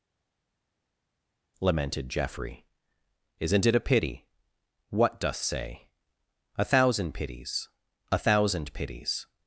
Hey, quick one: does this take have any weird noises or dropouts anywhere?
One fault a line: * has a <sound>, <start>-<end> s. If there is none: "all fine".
all fine